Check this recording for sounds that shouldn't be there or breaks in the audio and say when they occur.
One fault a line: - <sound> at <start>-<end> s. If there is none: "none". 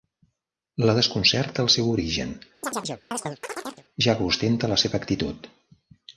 - chirp at 2.6-3.8 s